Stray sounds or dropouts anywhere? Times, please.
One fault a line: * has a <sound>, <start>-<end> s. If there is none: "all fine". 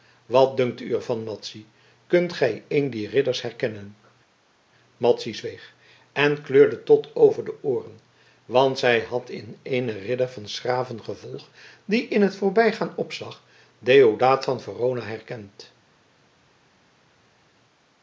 all fine